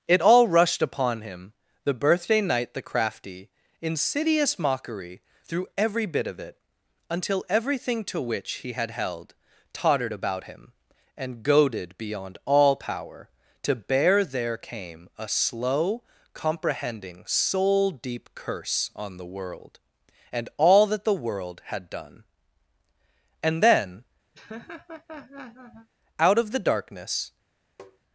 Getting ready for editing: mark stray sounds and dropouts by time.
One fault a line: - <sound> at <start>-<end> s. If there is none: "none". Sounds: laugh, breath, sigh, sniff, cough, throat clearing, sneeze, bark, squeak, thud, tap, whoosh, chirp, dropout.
- laugh at 24.3-25.9 s
- tap at 27.8-28.0 s